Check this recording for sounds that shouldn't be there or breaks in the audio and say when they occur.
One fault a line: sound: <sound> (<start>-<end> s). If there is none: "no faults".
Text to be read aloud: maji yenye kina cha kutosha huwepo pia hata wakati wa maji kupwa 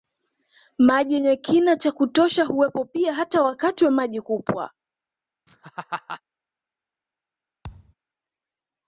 sound: laugh (5.5-6.2 s)
sound: thud (7.6-7.9 s)